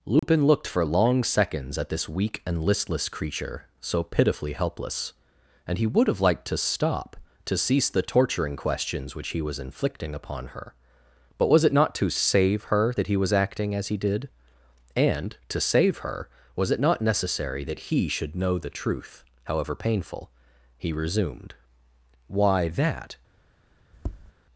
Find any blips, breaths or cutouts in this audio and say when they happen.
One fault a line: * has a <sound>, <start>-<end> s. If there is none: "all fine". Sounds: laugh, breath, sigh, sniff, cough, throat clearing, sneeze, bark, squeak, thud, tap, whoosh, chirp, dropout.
* has a dropout, 0.2-0.2 s
* has a tap, 23.9-24.3 s